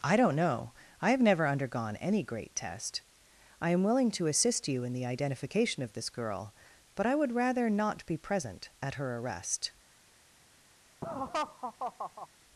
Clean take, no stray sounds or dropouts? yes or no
no